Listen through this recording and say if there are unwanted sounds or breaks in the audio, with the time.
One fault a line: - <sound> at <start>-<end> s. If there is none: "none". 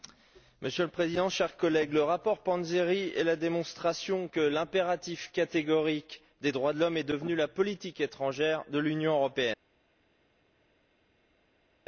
none